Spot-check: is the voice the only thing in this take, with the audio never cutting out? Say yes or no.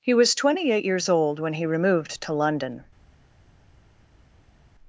yes